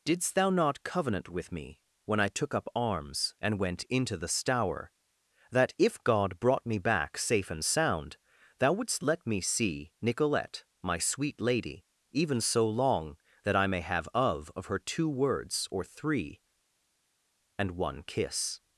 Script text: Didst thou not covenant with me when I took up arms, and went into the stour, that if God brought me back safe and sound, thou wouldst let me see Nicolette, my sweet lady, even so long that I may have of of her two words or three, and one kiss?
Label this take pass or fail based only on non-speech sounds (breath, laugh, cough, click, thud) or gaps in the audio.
pass